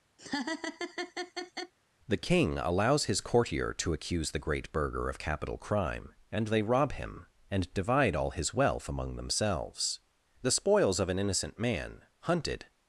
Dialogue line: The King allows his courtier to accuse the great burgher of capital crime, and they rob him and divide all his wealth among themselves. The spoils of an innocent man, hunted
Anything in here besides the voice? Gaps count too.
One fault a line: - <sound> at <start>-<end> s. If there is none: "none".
- laugh at 0.2-1.7 s